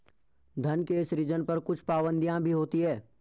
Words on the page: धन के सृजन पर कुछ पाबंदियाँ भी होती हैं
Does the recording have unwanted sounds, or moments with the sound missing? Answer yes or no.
no